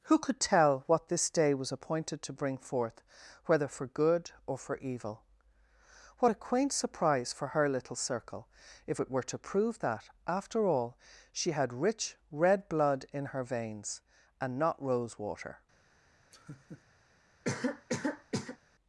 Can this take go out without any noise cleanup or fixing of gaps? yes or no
no